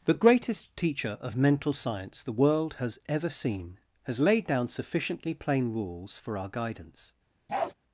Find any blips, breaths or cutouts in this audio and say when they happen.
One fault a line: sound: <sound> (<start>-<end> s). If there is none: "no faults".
sound: bark (7.5-7.7 s)